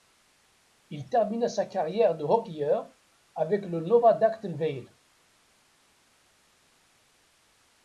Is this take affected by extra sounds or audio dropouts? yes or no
no